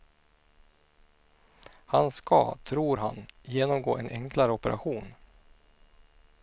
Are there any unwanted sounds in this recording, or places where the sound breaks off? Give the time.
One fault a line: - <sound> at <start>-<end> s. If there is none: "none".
none